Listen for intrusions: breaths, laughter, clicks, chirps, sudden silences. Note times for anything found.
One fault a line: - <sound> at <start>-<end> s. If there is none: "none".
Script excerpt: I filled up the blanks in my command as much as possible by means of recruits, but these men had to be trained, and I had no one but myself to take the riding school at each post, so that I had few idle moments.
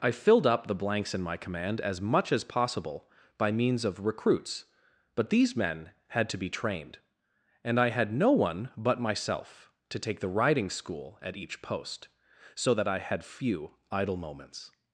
none